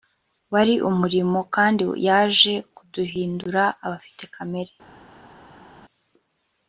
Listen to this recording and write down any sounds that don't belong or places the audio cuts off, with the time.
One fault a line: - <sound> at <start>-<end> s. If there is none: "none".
none